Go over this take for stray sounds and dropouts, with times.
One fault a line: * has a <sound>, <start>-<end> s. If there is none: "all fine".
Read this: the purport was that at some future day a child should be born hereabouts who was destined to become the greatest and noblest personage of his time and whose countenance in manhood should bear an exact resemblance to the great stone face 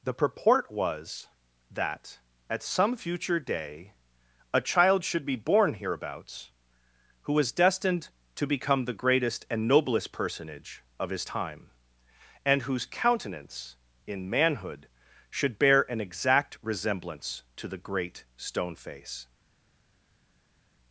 all fine